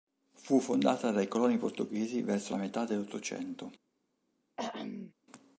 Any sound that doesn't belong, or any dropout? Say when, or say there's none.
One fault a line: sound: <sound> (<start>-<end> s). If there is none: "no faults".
sound: throat clearing (4.6-5.1 s)